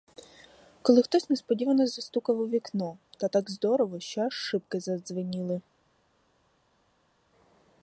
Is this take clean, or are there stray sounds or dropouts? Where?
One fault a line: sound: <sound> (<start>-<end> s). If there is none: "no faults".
no faults